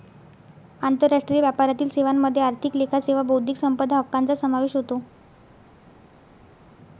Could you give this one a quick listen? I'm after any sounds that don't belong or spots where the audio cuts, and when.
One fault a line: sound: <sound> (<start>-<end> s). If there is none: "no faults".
no faults